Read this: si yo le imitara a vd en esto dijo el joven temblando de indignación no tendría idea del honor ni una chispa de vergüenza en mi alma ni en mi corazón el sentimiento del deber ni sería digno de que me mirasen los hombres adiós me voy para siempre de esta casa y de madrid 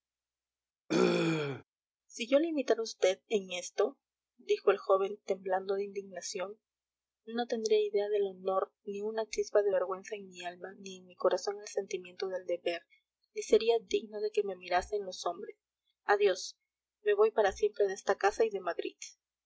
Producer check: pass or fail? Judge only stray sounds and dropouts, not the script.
fail